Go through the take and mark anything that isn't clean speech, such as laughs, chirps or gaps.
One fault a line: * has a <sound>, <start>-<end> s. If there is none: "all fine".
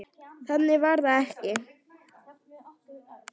all fine